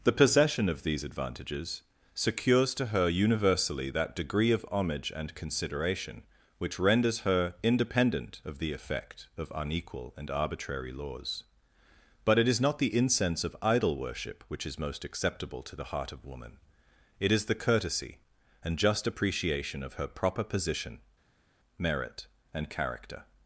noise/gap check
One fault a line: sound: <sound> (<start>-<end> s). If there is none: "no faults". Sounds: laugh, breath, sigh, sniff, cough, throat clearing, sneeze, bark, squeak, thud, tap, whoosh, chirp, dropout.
no faults